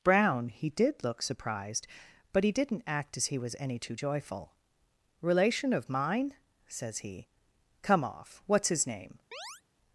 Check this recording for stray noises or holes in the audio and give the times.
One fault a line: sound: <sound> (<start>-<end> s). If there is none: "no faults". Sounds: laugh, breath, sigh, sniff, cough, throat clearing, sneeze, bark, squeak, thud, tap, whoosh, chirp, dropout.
sound: chirp (9.3-9.6 s)